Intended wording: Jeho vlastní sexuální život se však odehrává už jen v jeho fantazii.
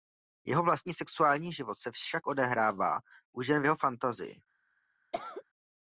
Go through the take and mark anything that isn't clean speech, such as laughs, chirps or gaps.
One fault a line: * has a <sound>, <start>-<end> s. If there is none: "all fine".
* has a cough, 5.1-5.4 s